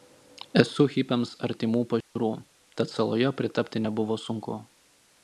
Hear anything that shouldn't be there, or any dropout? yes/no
yes